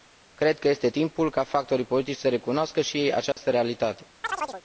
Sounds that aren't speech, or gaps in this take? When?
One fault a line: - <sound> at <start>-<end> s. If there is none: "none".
- dropout at 3.3-3.4 s
- chirp at 4.2-4.6 s